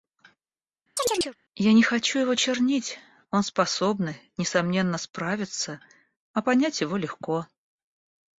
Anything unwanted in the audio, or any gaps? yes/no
yes